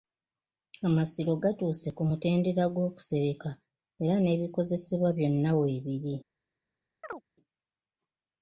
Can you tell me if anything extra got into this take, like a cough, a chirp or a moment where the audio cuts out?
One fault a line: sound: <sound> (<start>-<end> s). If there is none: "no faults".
sound: chirp (7.0-7.2 s)